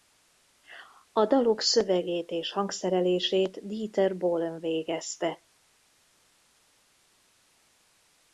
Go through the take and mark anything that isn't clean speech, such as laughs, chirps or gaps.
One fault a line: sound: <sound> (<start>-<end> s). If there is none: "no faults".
no faults